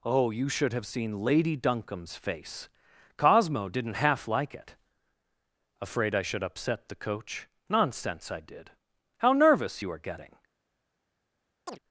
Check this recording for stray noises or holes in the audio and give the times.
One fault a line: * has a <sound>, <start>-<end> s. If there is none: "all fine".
* has a chirp, 11.7-11.8 s